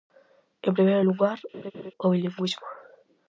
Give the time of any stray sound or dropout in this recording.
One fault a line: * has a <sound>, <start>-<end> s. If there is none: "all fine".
* has a laugh, 1.5-1.9 s